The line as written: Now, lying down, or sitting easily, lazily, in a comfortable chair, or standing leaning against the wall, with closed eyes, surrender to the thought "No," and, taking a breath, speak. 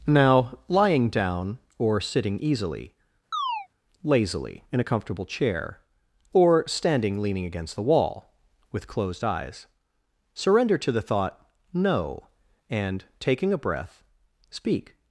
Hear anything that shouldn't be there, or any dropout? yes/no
yes